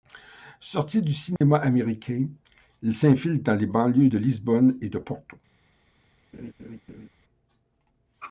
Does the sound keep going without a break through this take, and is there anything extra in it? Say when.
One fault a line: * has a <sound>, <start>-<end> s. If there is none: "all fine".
* has a dropout, 1.4-1.4 s
* has a laugh, 6.3-7.1 s